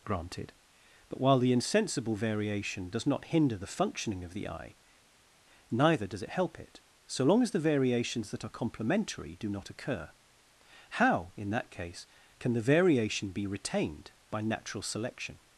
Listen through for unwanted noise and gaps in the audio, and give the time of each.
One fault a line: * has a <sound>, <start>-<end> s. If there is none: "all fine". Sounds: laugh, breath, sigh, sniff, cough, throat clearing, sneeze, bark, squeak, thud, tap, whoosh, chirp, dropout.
all fine